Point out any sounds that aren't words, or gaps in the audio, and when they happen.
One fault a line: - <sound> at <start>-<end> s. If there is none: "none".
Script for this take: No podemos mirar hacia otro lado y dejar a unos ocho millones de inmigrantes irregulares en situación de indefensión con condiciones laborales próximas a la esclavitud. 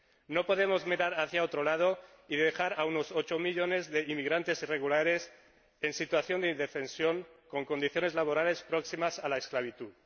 none